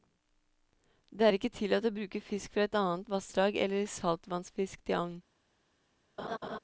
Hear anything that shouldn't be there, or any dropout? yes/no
yes